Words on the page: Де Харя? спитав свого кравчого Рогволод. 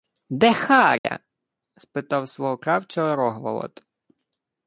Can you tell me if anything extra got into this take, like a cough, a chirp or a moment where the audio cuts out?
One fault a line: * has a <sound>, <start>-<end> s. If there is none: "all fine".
* has a dropout, 1.0-1.0 s